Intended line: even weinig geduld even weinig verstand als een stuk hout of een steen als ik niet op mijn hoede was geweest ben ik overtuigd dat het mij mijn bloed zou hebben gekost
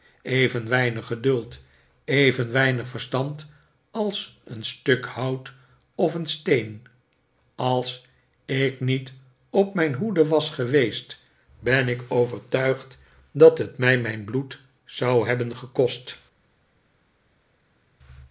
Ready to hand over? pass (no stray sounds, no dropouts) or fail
pass